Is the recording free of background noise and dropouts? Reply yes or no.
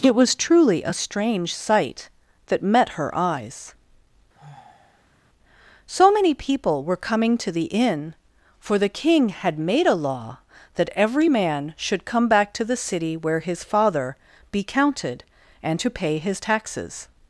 no